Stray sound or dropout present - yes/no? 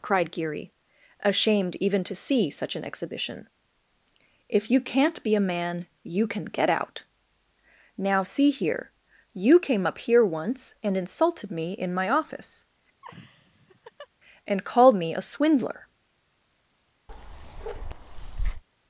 yes